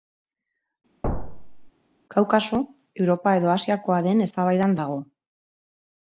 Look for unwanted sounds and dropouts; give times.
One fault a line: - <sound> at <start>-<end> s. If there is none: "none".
- thud at 1.0-1.7 s